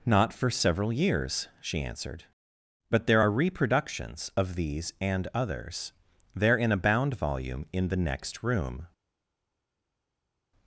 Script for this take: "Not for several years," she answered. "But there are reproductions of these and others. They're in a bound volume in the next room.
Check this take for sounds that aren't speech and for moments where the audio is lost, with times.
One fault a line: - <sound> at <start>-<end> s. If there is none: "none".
none